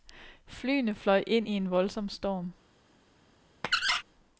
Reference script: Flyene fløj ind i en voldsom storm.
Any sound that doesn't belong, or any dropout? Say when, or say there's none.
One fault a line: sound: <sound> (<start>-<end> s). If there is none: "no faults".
sound: squeak (3.6-4.0 s)